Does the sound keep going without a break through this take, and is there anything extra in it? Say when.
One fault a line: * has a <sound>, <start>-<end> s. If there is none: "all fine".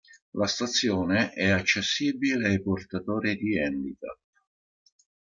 all fine